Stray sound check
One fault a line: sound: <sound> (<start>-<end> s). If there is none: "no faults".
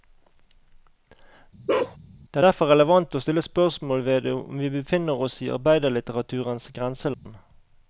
sound: bark (1.7-2.0 s)
sound: dropout (7.1-7.3 s)